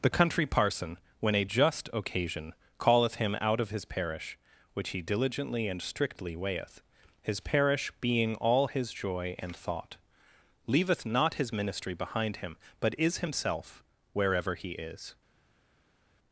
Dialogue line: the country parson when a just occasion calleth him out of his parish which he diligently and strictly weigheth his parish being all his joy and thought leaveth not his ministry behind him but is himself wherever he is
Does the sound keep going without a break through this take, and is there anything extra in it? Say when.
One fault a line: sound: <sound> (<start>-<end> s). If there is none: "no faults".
no faults